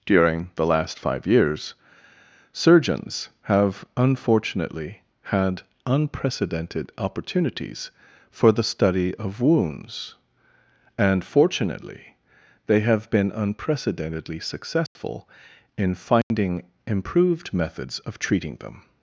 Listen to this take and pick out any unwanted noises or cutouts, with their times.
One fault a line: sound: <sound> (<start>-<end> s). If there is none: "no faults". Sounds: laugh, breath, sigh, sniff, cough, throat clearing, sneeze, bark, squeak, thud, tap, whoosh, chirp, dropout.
sound: dropout (14.9-15.0 s)
sound: dropout (16.2-16.3 s)